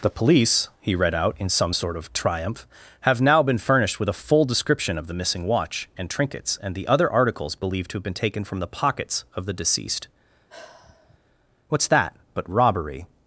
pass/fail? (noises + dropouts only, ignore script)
fail